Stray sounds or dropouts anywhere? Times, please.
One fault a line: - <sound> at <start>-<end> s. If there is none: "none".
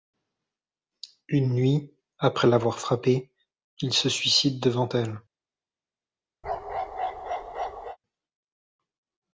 - bark at 6.4-8.0 s